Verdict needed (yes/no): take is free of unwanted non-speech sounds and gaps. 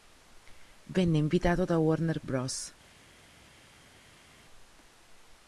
yes